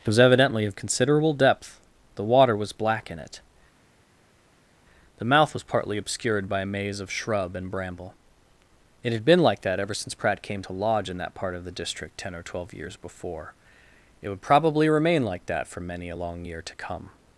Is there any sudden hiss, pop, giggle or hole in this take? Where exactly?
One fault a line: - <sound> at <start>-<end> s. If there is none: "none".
none